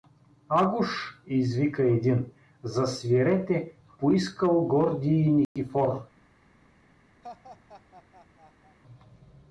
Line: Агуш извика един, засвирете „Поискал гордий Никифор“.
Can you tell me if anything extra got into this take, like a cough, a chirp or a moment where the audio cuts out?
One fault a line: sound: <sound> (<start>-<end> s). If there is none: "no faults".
sound: dropout (5.4-5.6 s)
sound: laugh (7.2-8.8 s)